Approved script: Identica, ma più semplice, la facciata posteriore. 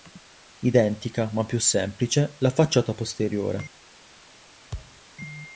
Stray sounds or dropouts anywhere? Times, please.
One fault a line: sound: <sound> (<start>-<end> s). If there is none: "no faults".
sound: thud (4.7-5.0 s)